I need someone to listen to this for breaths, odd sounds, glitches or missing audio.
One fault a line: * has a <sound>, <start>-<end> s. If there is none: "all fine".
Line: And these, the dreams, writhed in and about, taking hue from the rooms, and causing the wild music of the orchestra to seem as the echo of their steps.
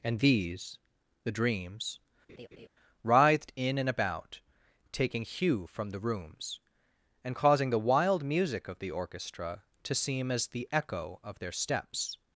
* has a laugh, 2.3-2.7 s